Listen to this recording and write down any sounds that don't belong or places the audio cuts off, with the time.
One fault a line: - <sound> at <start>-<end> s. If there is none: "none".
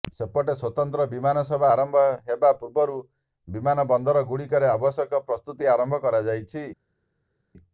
none